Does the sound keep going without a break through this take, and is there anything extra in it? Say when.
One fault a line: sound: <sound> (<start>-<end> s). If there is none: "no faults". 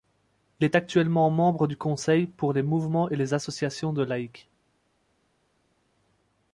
no faults